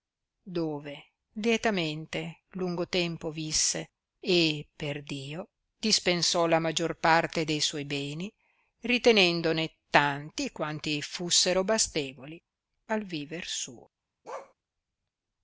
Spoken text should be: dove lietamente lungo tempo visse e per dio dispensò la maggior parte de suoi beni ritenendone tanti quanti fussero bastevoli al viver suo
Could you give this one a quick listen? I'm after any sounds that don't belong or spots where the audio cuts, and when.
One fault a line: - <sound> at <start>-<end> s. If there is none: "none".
- bark at 14.2-14.5 s